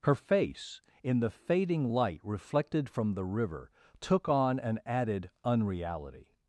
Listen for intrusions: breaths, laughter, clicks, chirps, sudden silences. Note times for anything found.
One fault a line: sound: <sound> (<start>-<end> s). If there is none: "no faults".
no faults